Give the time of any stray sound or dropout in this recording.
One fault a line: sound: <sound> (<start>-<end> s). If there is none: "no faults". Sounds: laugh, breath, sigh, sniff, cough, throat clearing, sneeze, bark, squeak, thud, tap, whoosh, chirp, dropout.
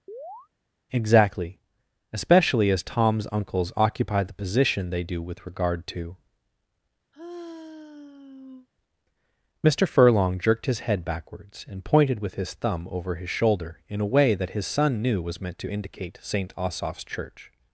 sound: chirp (0.1-0.5 s)
sound: sigh (7.1-8.7 s)